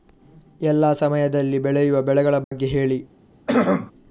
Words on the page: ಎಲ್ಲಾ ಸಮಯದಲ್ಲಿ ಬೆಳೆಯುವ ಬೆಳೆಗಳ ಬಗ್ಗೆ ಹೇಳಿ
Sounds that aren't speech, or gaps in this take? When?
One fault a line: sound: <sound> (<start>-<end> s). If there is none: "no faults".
sound: dropout (2.4-2.5 s)
sound: throat clearing (3.5-3.9 s)